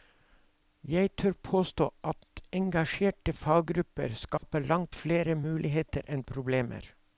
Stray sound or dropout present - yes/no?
yes